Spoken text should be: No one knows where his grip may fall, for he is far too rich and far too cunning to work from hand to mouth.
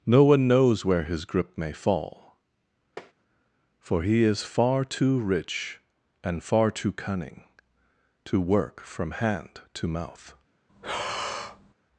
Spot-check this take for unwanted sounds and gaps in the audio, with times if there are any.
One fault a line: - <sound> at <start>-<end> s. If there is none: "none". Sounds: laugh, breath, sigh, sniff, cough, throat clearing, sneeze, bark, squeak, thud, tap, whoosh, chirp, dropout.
- tap at 3.0-3.1 s
- breath at 10.7-11.7 s